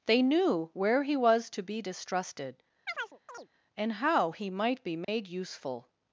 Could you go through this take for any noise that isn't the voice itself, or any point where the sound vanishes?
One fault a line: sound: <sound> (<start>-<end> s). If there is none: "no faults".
sound: chirp (2.9-3.5 s)
sound: dropout (5.0-5.1 s)